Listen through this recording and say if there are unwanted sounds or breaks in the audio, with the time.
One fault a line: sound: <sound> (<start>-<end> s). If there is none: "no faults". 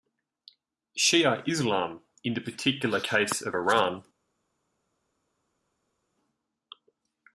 no faults